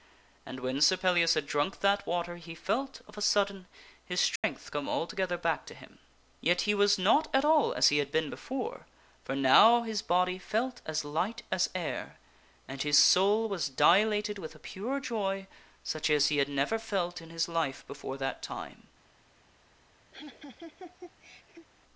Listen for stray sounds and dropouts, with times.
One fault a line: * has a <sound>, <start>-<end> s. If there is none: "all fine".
* has a dropout, 4.4-4.4 s
* has a laugh, 20.1-21.7 s